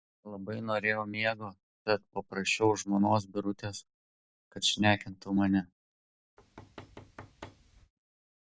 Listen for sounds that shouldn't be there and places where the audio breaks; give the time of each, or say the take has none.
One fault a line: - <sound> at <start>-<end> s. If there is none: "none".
- thud at 6.4-7.9 s